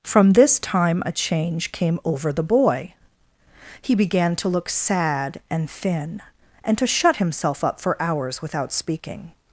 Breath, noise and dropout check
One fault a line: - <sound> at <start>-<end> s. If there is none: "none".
none